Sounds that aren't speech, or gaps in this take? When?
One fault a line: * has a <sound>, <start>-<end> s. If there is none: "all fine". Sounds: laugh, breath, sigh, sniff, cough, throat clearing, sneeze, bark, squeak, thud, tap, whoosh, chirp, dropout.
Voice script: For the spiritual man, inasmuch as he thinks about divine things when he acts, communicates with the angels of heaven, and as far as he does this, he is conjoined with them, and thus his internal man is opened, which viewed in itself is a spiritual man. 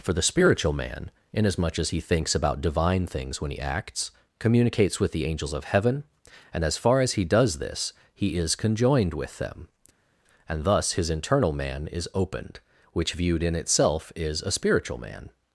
all fine